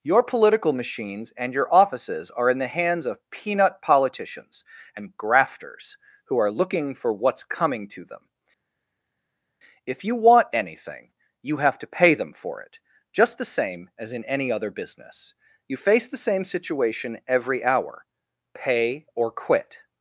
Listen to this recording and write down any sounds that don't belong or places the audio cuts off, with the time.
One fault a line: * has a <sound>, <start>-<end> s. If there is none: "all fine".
all fine